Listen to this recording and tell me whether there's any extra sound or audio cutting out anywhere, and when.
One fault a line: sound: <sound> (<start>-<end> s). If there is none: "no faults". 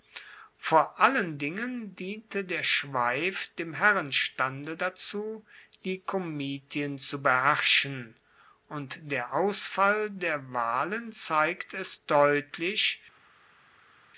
no faults